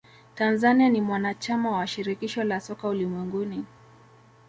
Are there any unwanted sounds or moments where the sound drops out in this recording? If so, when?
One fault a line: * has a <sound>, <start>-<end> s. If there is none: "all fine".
all fine